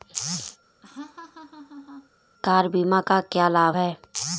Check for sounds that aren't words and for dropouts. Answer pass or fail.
fail